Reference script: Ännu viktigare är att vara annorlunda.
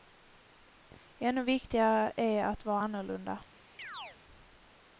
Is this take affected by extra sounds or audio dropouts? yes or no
yes